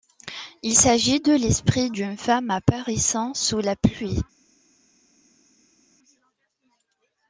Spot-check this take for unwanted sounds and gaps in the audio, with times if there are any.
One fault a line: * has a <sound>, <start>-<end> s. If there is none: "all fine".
all fine